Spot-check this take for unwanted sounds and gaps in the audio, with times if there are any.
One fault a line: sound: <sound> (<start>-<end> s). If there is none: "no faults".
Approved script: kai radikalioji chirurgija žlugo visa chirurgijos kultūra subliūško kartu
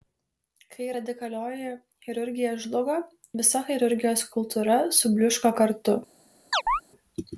sound: chirp (6.5-6.8 s)